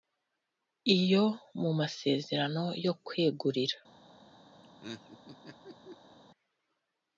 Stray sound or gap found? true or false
true